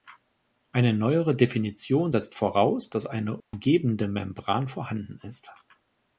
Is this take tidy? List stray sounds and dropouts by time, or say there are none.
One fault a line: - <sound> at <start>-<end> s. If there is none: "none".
- dropout at 3.4-3.5 s